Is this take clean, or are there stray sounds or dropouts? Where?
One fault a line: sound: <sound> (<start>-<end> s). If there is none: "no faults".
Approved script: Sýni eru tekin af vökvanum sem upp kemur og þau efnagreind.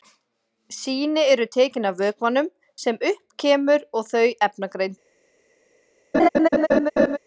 sound: laugh (6.1-7.2 s)